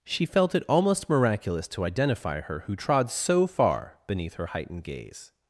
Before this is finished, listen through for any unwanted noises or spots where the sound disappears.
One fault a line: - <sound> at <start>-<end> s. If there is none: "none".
none